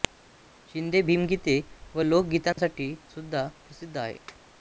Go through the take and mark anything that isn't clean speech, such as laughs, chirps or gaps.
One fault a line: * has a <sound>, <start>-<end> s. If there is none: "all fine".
* has a dropout, 2.5-2.6 s